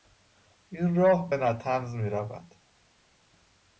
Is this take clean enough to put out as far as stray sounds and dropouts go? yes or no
yes